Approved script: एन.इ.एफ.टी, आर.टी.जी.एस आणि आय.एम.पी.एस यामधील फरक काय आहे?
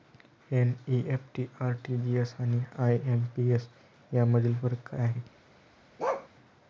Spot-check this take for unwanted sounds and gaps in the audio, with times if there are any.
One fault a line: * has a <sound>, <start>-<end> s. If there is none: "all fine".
* has a bark, 6.0-6.3 s